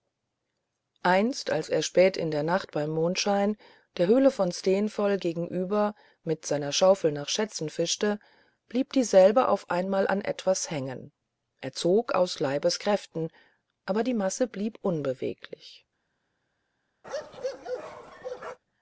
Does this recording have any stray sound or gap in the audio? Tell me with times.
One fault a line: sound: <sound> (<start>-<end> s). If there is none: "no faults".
sound: bark (17.0-18.6 s)